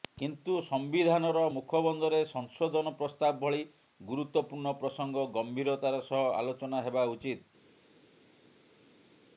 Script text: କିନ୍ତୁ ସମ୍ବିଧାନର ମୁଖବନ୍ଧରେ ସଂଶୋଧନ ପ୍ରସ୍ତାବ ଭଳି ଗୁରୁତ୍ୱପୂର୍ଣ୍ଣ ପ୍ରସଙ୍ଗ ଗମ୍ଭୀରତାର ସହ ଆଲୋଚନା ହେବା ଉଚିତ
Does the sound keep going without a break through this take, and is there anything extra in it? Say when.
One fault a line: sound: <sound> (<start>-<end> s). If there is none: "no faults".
no faults